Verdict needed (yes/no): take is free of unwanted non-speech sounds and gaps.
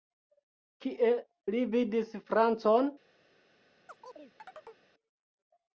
no